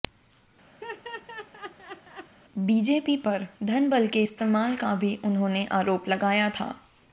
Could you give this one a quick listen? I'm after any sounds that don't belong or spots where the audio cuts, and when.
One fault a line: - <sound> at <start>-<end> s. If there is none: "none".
- laugh at 0.8-2.3 s